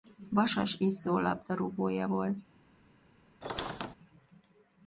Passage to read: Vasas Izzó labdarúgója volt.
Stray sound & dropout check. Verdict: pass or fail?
fail